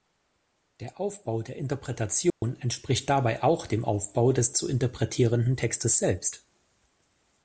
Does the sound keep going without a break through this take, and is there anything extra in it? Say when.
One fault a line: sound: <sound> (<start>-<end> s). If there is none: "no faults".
sound: dropout (2.3-2.4 s)